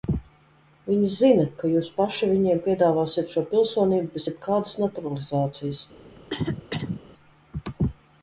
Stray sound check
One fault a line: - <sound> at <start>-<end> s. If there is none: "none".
- cough at 6.2-7.0 s